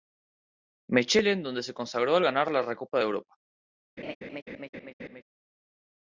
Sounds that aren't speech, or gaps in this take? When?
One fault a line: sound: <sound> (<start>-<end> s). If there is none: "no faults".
sound: laugh (4.0-5.2 s)